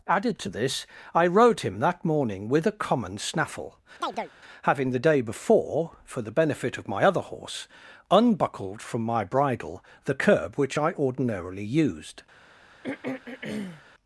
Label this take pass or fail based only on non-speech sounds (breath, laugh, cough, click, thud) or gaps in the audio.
fail